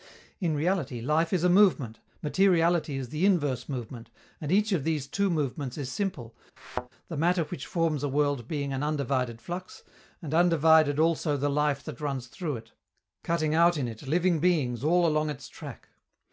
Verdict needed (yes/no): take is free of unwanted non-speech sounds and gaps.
no